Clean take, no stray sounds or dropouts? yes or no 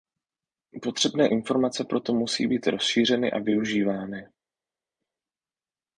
yes